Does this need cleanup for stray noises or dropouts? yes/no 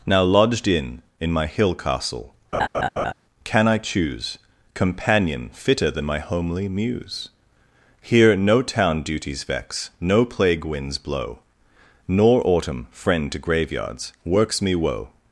yes